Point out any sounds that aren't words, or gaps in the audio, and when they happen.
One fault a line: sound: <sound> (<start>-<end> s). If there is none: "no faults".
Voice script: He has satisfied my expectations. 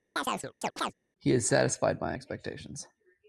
sound: chirp (0.2-0.9 s)